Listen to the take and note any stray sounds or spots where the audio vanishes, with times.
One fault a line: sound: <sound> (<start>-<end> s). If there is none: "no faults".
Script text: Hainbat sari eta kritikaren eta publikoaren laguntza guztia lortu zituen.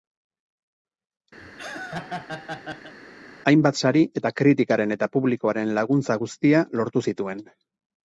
sound: laugh (1.4-2.9 s)